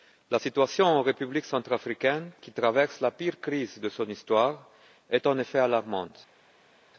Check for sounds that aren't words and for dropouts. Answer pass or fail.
pass